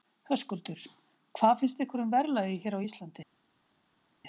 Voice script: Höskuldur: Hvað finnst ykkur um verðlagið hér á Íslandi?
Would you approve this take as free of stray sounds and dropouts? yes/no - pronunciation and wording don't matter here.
yes